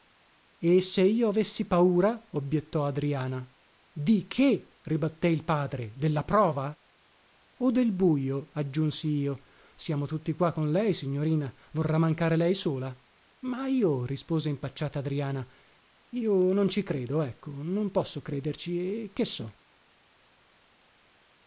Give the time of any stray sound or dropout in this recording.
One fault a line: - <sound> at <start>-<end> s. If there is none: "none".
none